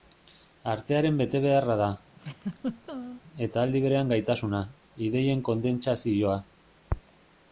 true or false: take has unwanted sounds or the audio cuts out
true